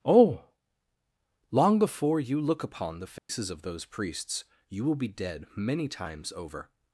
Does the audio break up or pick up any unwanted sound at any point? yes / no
yes